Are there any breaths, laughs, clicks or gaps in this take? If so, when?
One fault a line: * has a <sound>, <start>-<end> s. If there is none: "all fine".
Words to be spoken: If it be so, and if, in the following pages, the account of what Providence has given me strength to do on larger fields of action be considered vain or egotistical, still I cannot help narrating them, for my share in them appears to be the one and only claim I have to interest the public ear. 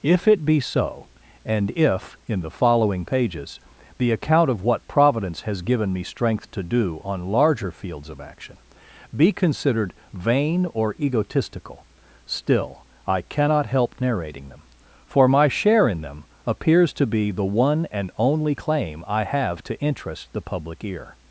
all fine